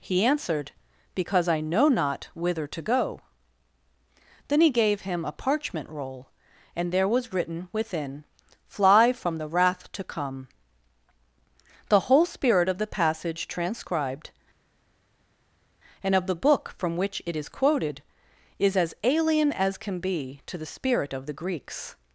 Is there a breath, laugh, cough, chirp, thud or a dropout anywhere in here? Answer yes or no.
no